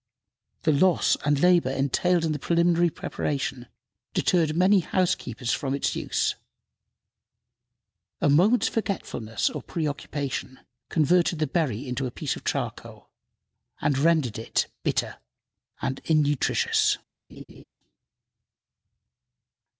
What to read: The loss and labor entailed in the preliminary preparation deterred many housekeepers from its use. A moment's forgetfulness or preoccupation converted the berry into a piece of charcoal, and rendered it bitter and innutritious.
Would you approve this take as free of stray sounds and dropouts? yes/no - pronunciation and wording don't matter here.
no